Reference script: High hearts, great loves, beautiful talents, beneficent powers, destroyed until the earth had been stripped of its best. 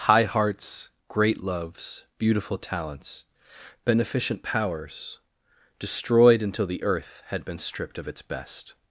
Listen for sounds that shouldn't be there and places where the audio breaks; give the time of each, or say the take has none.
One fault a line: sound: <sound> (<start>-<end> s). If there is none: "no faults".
no faults